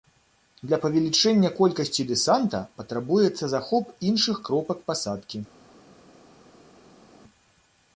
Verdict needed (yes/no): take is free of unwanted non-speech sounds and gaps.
yes